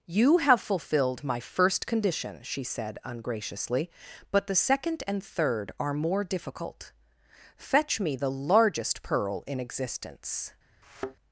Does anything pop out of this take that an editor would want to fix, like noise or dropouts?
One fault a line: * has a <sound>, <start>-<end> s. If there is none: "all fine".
* has a thud, 10.8-11.2 s